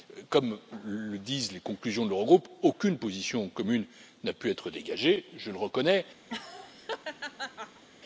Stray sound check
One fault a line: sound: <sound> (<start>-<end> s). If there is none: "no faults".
sound: laugh (6.3-7.8 s)